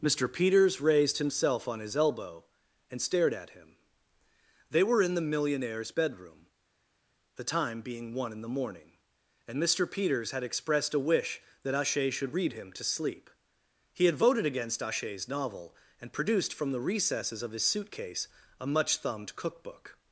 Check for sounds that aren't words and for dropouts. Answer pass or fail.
pass